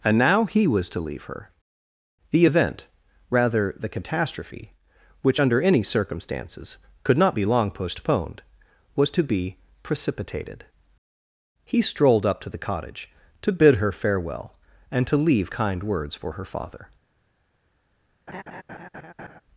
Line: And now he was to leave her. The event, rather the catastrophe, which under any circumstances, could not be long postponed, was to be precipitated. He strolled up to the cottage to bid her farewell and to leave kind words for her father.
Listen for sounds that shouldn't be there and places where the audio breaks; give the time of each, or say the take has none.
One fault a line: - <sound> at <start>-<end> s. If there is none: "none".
- laugh at 18.3-19.4 s